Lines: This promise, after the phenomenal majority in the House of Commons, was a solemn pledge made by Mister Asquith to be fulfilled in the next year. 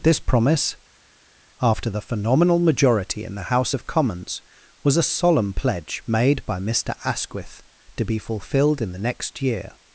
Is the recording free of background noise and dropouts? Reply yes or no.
yes